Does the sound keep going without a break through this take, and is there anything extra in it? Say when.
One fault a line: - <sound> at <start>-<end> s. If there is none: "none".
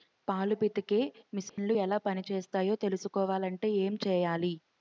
- dropout at 1.5-1.6 s